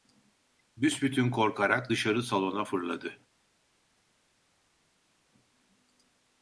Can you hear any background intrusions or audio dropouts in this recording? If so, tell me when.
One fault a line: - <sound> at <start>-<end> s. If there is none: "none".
none